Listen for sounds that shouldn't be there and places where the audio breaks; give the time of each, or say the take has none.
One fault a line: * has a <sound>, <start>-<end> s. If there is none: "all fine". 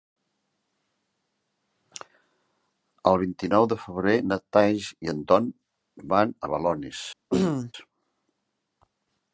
* has a throat clearing, 7.3-7.7 s